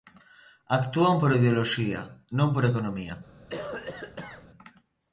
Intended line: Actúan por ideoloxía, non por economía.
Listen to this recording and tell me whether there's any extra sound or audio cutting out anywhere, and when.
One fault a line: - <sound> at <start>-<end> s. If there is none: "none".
- cough at 3.5-4.5 s